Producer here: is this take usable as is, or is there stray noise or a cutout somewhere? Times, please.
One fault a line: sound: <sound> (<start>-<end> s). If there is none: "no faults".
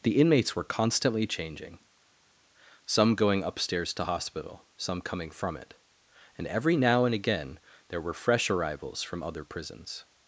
no faults